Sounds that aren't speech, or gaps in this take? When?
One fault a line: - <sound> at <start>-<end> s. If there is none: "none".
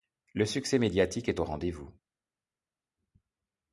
none